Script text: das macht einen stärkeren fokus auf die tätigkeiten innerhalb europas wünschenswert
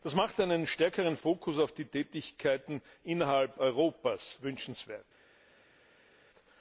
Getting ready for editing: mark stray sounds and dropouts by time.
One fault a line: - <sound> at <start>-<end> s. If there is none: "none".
none